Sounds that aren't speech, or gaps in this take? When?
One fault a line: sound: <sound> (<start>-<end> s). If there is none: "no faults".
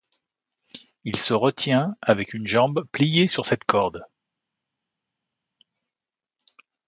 no faults